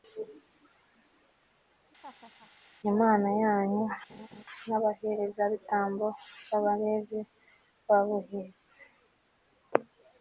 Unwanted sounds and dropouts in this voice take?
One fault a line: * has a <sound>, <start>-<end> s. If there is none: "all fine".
* has a laugh, 2.0-2.5 s
* has a laugh, 4.1-4.4 s